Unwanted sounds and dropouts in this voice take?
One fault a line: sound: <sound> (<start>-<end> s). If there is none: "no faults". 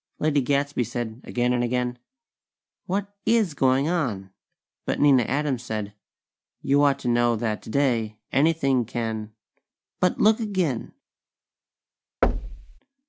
sound: thud (12.2-12.8 s)